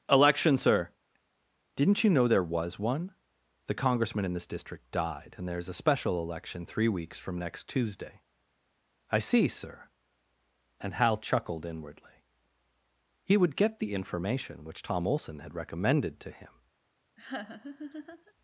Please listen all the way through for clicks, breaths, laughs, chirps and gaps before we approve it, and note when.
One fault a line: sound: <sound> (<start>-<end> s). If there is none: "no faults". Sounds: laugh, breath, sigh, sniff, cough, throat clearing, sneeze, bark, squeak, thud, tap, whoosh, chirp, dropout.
sound: laugh (17.2-18.3 s)